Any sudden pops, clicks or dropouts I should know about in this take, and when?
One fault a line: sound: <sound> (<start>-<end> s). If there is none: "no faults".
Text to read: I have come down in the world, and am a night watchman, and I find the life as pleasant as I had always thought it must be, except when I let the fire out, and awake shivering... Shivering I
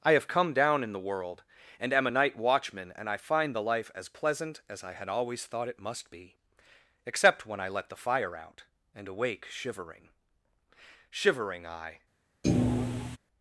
sound: thud (12.4-13.2 s)